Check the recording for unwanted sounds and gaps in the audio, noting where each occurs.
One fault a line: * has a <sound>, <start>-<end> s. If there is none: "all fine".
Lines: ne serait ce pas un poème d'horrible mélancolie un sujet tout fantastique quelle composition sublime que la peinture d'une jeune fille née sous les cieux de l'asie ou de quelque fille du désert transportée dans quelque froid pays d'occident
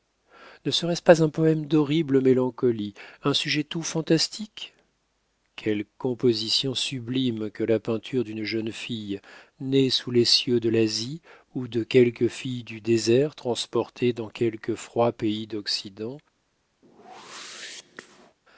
* has a whoosh, 16.8-18.4 s